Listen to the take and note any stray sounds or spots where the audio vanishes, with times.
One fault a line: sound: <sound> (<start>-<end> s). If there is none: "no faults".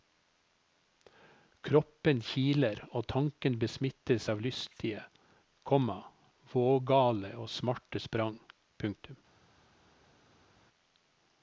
no faults